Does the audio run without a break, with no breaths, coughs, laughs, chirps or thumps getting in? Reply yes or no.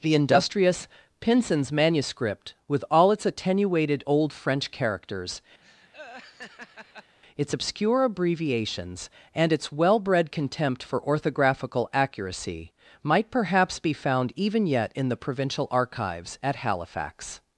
no